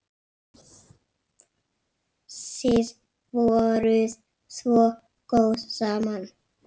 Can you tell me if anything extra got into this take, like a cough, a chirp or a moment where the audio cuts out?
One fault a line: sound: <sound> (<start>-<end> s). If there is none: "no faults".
no faults